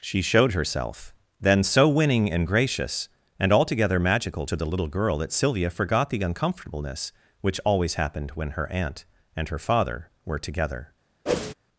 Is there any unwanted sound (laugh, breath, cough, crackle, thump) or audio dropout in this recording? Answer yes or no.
yes